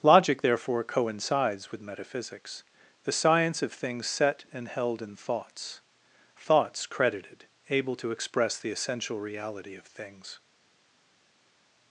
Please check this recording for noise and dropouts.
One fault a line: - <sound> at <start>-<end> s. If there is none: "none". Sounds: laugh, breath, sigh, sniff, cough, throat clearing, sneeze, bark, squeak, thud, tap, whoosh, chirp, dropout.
none